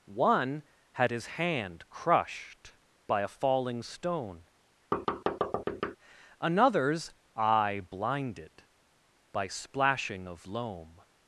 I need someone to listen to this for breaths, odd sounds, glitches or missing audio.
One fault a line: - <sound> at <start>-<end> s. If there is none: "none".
- thud at 4.9-6.0 s